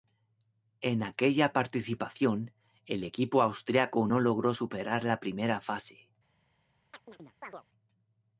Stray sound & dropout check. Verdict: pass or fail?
fail